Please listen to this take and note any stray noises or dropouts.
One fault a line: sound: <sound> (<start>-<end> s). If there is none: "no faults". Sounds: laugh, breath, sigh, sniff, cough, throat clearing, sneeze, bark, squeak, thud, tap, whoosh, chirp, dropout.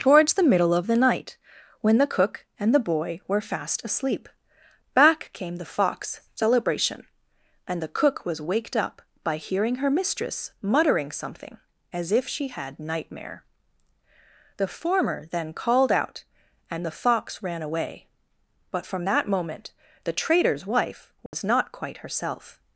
sound: dropout (21.3-21.3 s)